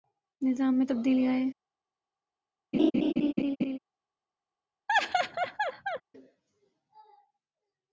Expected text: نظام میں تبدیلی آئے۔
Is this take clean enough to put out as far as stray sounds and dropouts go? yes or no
no